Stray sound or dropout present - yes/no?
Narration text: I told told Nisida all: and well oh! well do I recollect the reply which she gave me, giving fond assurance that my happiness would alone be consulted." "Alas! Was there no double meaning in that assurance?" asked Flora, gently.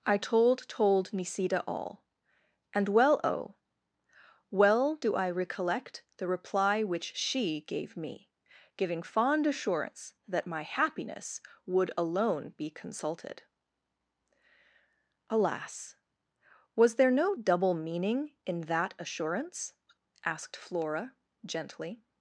no